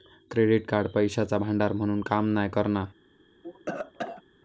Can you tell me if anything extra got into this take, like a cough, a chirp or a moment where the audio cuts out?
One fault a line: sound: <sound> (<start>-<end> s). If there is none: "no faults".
sound: cough (3.4-4.2 s)